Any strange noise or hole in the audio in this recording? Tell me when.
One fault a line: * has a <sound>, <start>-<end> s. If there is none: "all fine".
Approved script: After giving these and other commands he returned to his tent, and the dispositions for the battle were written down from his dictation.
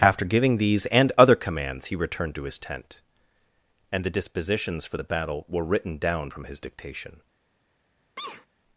* has a sneeze, 8.2-8.5 s